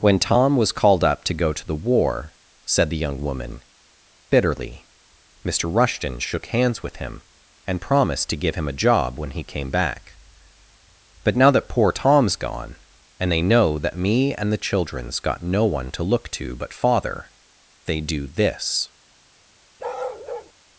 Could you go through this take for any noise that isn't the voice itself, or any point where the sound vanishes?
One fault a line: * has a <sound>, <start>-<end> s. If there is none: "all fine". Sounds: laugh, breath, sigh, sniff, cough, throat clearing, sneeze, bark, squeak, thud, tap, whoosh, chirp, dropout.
* has a bark, 19.8-20.5 s